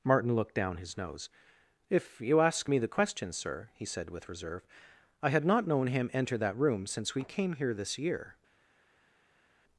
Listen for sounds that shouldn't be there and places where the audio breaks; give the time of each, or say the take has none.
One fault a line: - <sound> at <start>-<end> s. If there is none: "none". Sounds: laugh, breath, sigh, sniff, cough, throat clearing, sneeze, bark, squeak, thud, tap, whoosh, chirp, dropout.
none